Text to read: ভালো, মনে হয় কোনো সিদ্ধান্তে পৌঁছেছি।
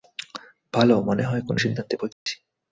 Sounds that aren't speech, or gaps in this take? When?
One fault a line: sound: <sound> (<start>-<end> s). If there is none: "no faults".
sound: dropout (2.1-2.3 s)